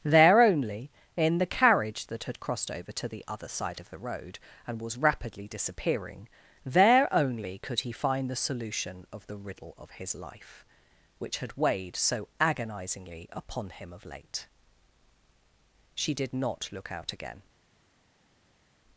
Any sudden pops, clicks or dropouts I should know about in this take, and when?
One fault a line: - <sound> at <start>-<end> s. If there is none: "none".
none